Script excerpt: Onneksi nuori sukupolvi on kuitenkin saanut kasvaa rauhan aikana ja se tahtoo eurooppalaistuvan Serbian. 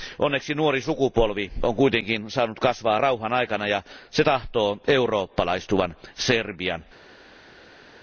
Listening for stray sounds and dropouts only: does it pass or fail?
pass